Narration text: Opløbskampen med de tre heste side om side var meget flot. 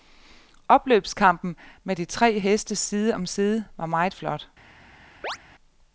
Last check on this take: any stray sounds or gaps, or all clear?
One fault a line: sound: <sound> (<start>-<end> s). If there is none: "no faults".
sound: chirp (5.2-5.4 s)